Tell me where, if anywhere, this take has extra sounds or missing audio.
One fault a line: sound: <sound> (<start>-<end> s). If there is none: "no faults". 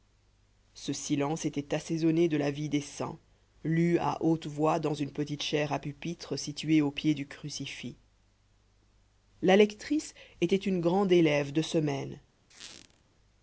sound: squeak (12.5-13.0 s)